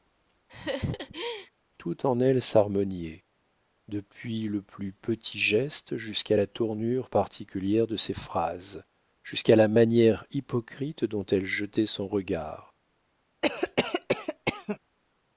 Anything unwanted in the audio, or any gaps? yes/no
yes